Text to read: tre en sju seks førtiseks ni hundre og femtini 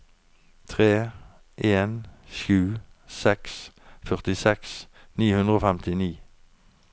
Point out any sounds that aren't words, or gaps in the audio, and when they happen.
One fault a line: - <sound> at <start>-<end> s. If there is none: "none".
none